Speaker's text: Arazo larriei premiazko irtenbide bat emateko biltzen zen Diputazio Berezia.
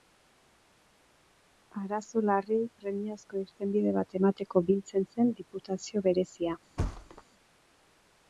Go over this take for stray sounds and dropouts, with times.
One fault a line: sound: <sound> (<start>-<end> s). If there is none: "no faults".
sound: thud (6.8-7.2 s)